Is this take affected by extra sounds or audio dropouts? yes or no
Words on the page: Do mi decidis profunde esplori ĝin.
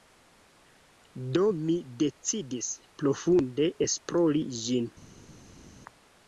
no